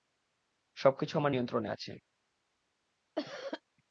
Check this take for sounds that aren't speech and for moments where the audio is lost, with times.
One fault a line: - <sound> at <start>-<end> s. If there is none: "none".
- cough at 3.1-3.6 s